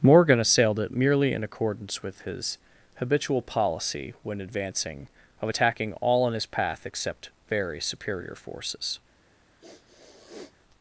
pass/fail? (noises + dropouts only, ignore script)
fail